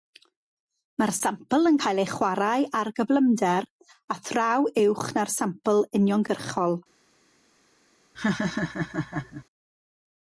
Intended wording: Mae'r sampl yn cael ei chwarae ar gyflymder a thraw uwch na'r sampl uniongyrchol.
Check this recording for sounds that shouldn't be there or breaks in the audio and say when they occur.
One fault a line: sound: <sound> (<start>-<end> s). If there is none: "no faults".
sound: laugh (8.1-9.4 s)